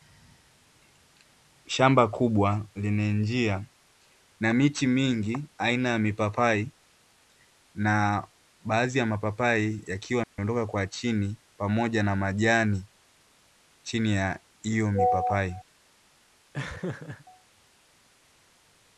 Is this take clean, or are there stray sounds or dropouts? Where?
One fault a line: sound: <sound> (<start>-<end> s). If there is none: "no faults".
sound: dropout (10.2-10.4 s)
sound: laugh (16.5-17.3 s)